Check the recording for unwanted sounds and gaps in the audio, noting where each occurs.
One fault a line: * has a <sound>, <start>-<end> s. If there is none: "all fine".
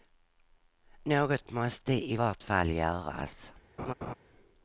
* has a laugh, 3.8-4.1 s